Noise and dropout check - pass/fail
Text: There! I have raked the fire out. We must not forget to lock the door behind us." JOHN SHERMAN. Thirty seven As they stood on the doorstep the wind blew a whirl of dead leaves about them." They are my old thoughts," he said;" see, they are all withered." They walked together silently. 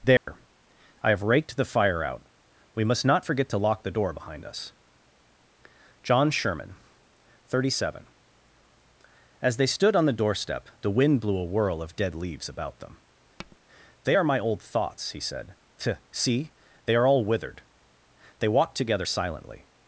fail